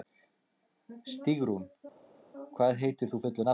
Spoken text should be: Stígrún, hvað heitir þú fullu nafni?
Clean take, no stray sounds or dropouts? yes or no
yes